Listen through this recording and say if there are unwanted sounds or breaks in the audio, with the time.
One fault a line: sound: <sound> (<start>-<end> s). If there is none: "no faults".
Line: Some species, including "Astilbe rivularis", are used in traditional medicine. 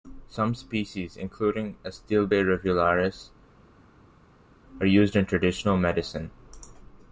no faults